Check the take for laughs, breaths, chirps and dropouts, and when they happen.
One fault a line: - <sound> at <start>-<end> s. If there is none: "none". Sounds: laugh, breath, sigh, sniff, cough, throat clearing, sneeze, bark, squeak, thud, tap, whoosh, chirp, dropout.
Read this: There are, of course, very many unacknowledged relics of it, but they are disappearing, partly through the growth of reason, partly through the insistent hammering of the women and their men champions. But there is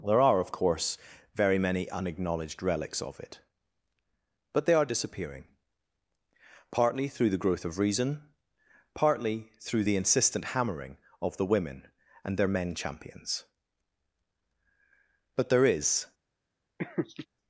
- laugh at 16.8-17.3 s